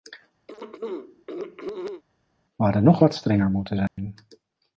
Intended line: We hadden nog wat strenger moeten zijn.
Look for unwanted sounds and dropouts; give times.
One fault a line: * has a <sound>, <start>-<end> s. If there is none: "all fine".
* has a throat clearing, 0.5-2.0 s
* has a dropout, 3.9-4.0 s